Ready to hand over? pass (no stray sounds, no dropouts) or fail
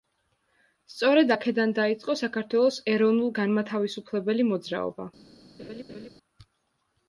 fail